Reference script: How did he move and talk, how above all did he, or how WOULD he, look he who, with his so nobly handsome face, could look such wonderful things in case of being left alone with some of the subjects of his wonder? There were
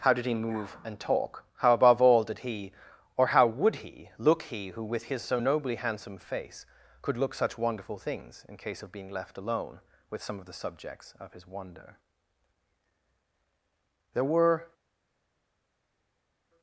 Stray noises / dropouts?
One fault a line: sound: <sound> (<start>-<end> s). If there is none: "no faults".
no faults